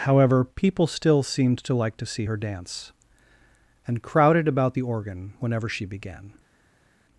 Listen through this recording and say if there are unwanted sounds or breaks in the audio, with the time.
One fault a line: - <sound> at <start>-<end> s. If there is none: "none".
none